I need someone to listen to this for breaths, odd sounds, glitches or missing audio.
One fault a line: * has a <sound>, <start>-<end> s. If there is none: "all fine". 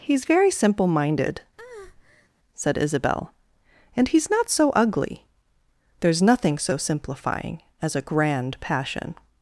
* has a breath, 1.6-2.3 s